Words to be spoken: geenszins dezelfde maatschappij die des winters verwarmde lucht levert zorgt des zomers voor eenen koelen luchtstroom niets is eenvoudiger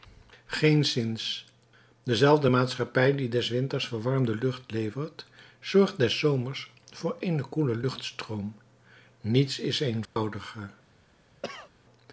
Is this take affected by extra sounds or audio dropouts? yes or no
yes